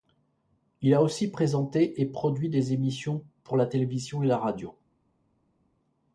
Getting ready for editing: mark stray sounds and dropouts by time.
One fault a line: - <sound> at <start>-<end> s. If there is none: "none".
none